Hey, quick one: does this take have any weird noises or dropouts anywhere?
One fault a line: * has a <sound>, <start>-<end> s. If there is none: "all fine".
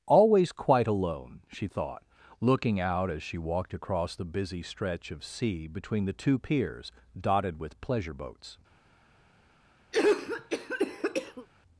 * has a cough, 9.9-11.5 s